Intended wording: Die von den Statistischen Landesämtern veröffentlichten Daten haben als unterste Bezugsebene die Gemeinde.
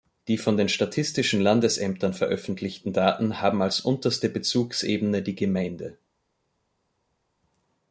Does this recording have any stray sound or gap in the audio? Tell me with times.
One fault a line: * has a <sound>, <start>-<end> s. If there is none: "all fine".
all fine